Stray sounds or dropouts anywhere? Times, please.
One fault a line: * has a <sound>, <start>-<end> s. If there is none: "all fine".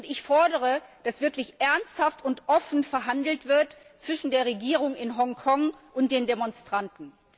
all fine